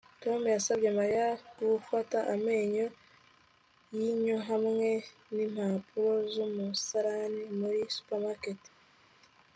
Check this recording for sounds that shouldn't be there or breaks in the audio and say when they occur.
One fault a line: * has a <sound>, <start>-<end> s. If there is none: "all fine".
all fine